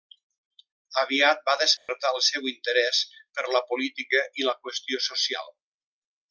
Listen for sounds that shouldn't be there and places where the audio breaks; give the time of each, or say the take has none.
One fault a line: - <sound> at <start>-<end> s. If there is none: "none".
- dropout at 1.8-1.9 s